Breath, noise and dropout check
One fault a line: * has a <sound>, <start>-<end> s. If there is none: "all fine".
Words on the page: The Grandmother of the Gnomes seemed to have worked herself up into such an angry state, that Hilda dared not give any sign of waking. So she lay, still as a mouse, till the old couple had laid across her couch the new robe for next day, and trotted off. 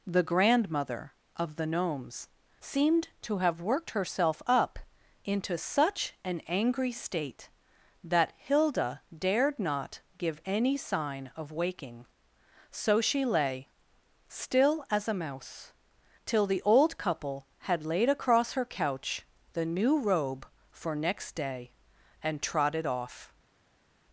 all fine